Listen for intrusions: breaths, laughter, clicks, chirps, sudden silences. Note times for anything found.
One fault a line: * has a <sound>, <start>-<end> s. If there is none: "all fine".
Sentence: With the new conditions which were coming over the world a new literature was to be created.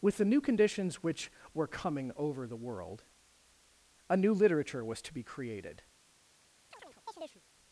* has a chirp, 6.7-7.4 s